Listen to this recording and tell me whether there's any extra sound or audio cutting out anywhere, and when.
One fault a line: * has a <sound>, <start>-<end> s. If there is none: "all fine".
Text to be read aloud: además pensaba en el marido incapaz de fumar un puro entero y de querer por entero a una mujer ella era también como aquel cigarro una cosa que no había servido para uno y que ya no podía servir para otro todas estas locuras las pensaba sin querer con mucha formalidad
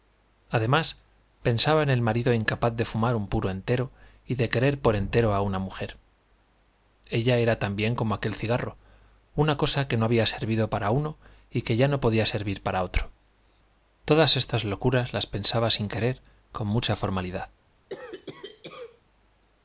* has a cough, 17.9-19.0 s